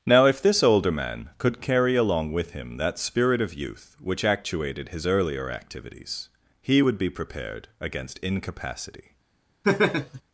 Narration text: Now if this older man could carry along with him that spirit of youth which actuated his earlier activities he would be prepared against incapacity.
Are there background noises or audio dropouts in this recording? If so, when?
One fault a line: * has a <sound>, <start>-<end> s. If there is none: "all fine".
* has a laugh, 9.6-10.2 s